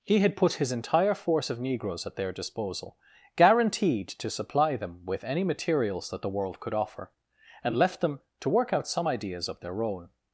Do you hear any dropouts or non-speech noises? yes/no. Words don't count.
no